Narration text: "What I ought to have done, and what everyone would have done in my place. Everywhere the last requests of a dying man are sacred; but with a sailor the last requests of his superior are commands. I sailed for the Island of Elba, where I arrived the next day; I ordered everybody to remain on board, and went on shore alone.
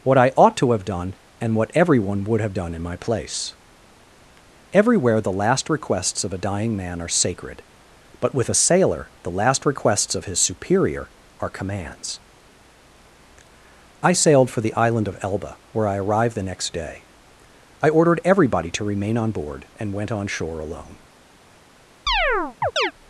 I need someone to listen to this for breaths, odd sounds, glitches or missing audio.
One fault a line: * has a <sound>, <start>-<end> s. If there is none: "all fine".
* has a chirp, 22.1-22.9 s